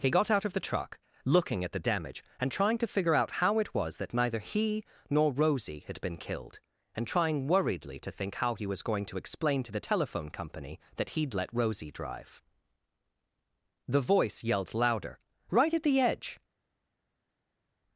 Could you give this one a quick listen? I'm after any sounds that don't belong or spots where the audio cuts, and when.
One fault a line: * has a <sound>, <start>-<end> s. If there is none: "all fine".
all fine